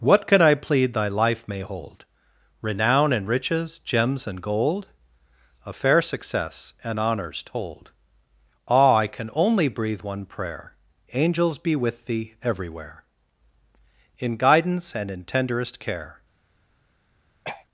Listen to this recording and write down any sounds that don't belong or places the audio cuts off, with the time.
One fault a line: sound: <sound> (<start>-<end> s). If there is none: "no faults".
sound: throat clearing (17.4-17.7 s)